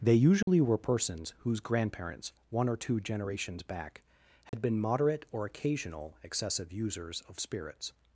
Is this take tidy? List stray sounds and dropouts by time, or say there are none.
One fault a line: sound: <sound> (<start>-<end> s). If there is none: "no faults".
sound: dropout (0.4-0.5 s)
sound: dropout (4.5-4.5 s)